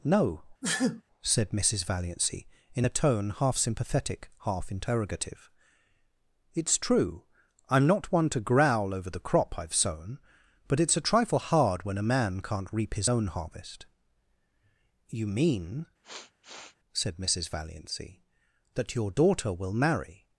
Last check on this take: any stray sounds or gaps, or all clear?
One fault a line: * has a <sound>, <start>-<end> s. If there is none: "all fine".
* has a sneeze, 0.6-1.0 s
* has a sniff, 16.0-16.8 s